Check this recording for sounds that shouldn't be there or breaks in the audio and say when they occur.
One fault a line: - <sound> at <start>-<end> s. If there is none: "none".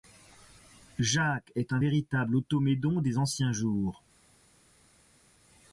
none